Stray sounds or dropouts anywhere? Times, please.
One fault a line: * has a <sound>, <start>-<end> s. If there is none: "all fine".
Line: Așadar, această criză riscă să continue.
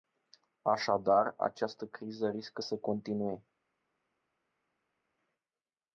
all fine